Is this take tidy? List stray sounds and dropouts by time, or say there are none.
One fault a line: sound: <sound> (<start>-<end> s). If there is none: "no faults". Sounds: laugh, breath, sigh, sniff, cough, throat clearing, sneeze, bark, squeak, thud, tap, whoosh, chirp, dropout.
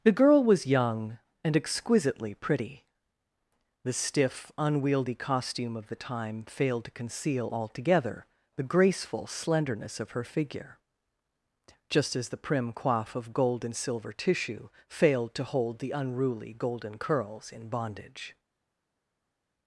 no faults